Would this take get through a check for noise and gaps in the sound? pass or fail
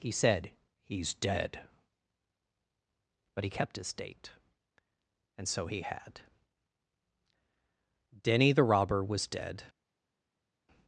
pass